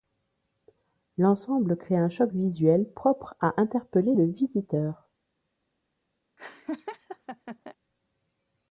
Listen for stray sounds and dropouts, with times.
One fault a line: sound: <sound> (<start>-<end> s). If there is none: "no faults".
sound: laugh (6.4-7.8 s)